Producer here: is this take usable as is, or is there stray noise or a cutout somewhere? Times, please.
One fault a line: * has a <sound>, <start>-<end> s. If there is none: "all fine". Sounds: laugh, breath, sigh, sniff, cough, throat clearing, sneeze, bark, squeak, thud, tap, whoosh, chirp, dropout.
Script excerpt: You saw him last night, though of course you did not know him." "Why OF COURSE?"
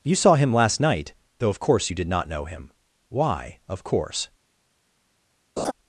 * has a laugh, 5.6-5.7 s